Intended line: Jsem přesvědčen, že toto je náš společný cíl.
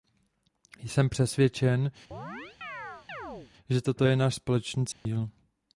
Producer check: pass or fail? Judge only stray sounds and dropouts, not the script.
fail